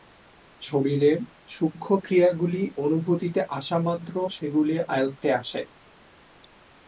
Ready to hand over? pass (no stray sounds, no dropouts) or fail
pass